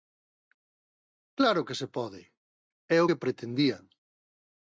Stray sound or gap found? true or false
false